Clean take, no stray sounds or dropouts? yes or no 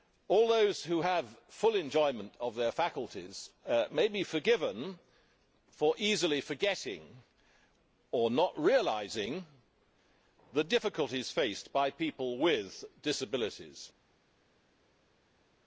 yes